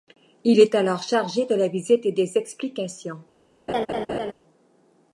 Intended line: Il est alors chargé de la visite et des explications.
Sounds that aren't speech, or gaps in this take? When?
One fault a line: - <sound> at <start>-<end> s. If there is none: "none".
- laugh at 3.7-4.3 s